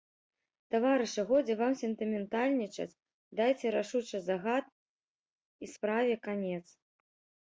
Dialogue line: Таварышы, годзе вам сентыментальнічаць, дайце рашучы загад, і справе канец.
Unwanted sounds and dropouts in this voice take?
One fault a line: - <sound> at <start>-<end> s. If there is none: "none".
none